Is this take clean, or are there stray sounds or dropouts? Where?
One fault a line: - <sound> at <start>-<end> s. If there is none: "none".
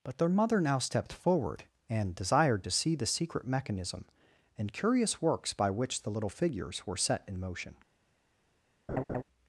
- laugh at 8.9-9.2 s